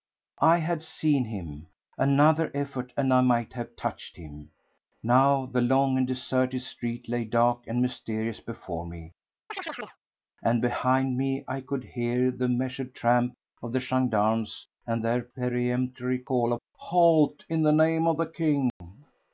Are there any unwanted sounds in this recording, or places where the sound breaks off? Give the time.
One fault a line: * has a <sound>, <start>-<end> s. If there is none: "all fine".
* has a chirp, 9.5-10.0 s
* has a dropout, 18.7-18.8 s